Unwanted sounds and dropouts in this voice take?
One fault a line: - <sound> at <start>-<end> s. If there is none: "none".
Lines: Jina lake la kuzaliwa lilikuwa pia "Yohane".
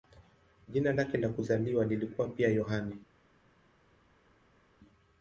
none